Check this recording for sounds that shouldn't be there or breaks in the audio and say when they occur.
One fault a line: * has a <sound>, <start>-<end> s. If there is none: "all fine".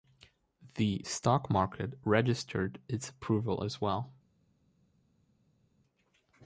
all fine